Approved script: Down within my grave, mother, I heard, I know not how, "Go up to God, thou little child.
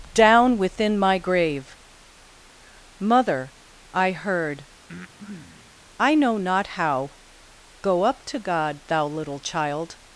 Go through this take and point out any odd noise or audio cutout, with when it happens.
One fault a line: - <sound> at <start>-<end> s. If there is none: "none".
- breath at 4.9-5.7 s